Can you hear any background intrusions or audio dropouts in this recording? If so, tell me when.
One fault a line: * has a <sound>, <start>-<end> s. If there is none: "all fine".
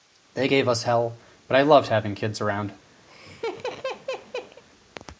* has a laugh, 3.1-4.6 s